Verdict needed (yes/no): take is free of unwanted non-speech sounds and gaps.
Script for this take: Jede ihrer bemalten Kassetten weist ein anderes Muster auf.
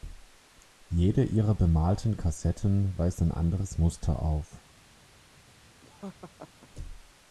no